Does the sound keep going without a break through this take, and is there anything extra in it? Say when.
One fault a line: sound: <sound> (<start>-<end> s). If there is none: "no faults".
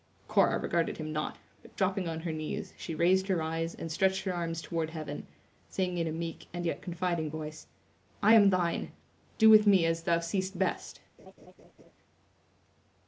sound: laugh (11.2-11.9 s)